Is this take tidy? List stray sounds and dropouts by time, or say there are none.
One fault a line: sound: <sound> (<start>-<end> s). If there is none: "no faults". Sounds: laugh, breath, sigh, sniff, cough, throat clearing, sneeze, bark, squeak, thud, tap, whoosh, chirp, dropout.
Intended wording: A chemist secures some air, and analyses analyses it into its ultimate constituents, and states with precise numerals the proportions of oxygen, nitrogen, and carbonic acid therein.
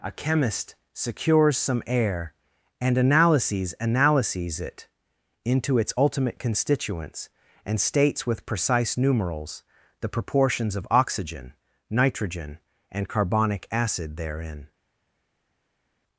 no faults